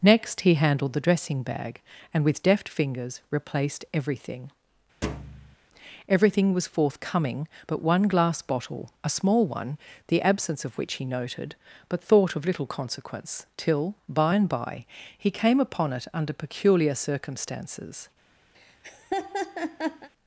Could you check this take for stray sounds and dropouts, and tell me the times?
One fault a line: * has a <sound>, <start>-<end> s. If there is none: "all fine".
* has a thud, 5.0-5.6 s
* has a laugh, 18.5-20.1 s